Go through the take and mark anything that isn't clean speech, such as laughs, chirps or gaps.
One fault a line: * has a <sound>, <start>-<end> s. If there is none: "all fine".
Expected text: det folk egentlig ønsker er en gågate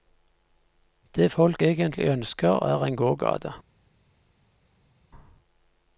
all fine